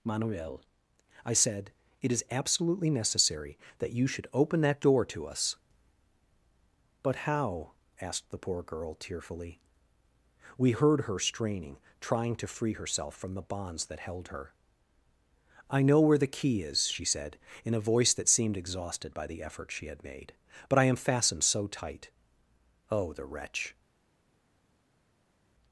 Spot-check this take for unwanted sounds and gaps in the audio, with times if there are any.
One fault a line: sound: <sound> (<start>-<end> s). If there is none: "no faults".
no faults